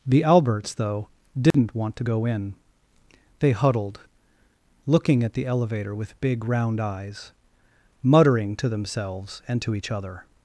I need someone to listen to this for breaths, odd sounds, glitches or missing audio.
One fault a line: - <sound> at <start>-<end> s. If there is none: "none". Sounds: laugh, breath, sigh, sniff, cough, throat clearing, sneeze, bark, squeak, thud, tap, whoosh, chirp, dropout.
- dropout at 1.5-1.5 s